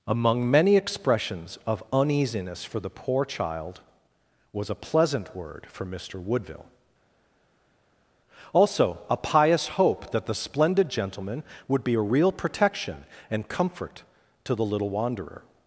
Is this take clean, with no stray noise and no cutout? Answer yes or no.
yes